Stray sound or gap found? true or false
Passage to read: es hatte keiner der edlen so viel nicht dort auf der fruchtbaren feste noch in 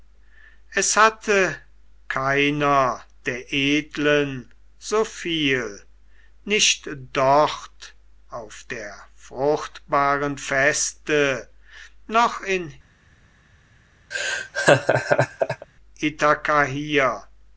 true